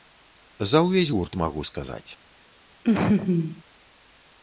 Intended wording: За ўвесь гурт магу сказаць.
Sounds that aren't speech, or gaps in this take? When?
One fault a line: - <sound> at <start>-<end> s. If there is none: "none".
- laugh at 2.8-3.6 s